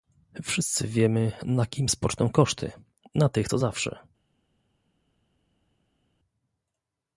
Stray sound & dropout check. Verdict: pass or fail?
pass